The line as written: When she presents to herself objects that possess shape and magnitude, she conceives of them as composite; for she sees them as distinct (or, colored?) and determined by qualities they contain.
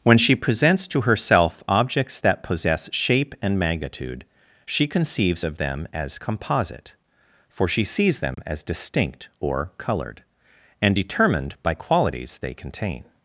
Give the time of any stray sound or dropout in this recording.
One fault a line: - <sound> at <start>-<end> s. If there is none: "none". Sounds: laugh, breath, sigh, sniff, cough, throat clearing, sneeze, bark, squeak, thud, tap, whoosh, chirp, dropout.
- dropout at 8.3-8.4 s